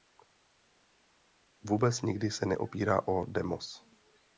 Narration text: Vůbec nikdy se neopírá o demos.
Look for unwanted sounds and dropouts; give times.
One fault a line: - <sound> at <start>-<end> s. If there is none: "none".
none